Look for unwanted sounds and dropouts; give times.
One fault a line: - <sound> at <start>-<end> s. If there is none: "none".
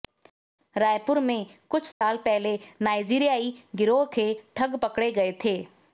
- dropout at 1.9-2.0 s